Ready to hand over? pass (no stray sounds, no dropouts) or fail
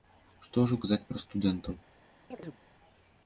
fail